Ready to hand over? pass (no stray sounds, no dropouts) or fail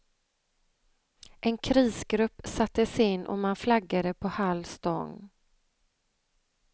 pass